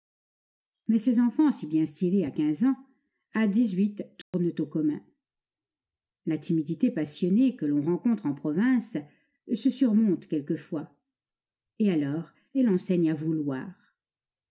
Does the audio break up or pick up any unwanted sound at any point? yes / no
yes